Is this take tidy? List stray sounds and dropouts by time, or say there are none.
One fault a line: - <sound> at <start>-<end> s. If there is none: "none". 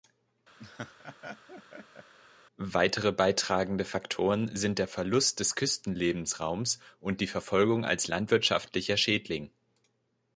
- laugh at 0.6-2.1 s